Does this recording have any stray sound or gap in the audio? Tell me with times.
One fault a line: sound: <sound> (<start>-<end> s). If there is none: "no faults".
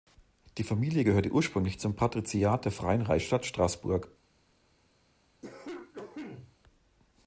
sound: cough (5.4-6.6 s)